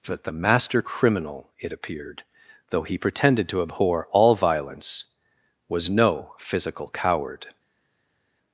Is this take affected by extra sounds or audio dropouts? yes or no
no